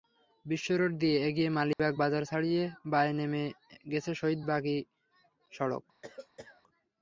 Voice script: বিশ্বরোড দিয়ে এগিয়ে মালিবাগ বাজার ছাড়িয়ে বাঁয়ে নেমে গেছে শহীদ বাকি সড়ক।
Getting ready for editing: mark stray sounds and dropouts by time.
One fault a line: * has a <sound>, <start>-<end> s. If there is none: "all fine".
* has a dropout, 1.7-1.8 s
* has a cough, 6.0-6.6 s